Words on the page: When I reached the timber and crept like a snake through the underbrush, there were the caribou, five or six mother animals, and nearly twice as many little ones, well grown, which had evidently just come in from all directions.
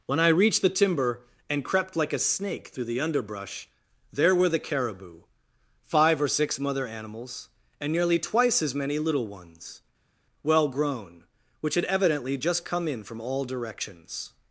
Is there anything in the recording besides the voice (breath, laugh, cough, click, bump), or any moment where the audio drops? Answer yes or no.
no